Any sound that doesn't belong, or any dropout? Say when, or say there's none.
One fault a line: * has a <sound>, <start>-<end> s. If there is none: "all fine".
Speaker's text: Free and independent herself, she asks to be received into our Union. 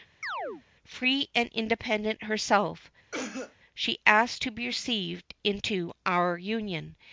* has a chirp, 0.2-0.6 s
* has a cough, 3.1-3.6 s